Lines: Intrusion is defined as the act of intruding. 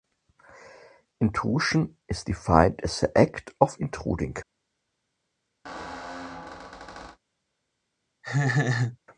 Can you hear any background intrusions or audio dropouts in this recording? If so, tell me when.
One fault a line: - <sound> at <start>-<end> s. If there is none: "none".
- squeak at 5.6-7.2 s
- laugh at 8.2-9.0 s